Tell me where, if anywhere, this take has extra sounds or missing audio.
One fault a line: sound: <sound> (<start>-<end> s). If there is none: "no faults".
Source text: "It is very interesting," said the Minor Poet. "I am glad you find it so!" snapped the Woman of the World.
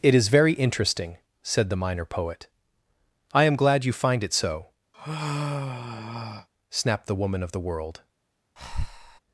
sound: sigh (4.9-6.5 s)
sound: breath (8.6-9.2 s)